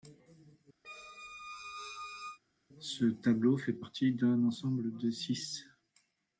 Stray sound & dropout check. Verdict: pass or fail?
fail